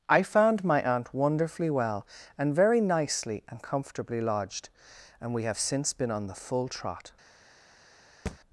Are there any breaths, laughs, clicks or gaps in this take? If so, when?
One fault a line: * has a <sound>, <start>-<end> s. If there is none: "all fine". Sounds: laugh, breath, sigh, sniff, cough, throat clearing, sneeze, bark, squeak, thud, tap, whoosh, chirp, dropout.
* has a thud, 8.3-8.4 s